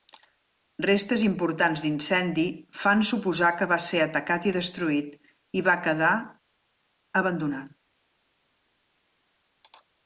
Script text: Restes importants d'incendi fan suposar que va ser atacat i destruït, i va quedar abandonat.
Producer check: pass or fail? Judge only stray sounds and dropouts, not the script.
pass